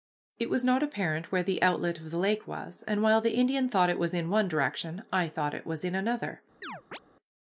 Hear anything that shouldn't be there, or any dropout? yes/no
yes